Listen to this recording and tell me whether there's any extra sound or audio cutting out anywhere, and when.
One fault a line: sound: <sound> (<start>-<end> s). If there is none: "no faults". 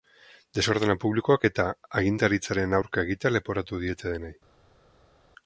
no faults